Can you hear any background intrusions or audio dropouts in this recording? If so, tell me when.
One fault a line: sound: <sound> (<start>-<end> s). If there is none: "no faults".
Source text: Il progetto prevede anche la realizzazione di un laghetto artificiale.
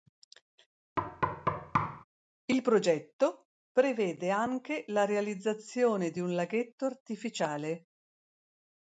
sound: thud (1.0-2.0 s)